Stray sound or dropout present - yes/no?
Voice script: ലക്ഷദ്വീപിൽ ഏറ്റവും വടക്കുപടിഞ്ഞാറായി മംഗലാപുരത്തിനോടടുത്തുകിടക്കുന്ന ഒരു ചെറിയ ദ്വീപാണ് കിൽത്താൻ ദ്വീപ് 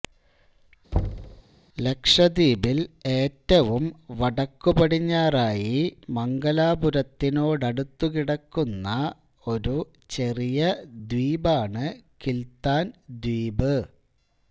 yes